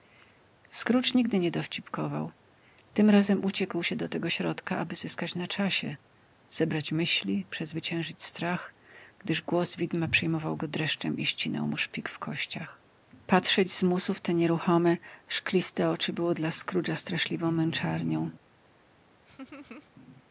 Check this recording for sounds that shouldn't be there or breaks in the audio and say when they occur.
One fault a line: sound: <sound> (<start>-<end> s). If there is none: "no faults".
sound: laugh (19.3-19.9 s)